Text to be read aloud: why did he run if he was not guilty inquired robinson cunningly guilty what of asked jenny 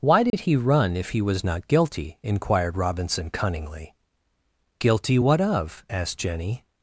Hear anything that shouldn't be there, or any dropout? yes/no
yes